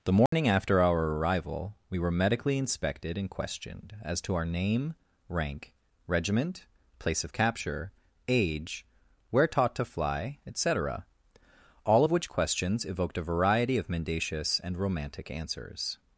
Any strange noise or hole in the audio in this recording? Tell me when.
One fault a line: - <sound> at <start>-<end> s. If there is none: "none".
- dropout at 0.3-0.3 s